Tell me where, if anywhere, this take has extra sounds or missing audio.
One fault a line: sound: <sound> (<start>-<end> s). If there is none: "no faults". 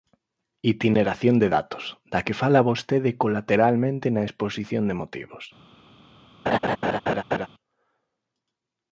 sound: laugh (6.5-7.5 s)